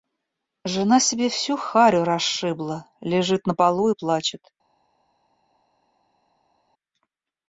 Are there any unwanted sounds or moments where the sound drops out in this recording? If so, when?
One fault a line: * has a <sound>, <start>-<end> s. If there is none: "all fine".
all fine